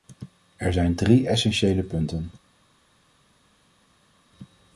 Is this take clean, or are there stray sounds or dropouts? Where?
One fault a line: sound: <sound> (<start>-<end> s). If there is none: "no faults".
no faults